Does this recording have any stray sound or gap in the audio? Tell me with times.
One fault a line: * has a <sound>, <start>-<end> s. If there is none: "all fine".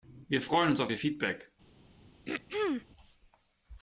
* has a throat clearing, 2.3-2.9 s